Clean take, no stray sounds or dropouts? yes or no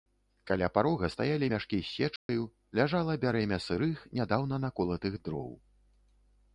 no